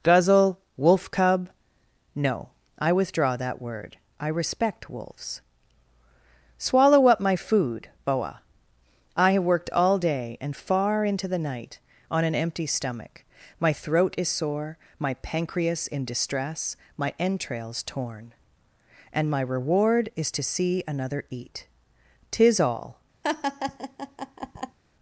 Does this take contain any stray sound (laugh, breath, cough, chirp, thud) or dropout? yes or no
yes